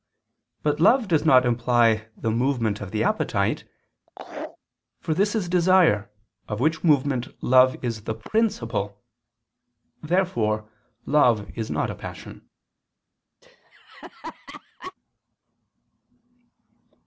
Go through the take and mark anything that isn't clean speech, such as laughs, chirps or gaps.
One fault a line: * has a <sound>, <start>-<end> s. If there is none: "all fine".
* has a laugh, 4.1-4.6 s
* has a laugh, 13.4-14.9 s